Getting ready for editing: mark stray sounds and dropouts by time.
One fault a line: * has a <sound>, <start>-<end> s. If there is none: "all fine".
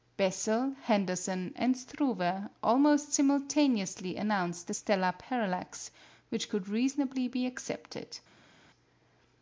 all fine